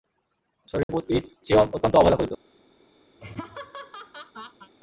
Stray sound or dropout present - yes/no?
yes